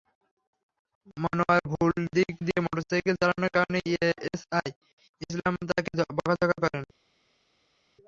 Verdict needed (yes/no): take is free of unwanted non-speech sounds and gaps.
yes